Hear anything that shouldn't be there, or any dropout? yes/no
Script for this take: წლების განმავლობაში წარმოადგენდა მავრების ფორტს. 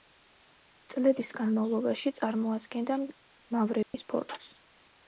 yes